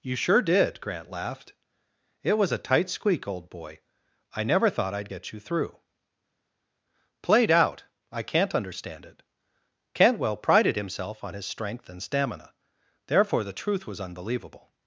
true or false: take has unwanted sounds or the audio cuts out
false